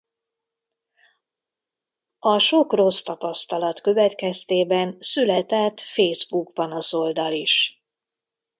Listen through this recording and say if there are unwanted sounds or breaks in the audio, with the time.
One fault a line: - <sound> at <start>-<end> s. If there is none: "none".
none